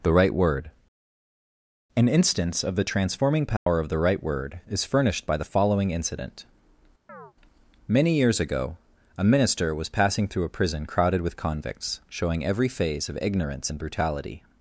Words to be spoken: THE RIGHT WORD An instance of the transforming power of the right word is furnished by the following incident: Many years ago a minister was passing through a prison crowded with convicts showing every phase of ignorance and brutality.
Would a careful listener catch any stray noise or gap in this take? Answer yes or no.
yes